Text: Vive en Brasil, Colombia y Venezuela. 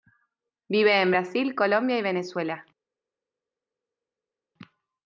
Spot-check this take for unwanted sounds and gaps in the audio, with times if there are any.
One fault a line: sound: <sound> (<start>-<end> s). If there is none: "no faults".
no faults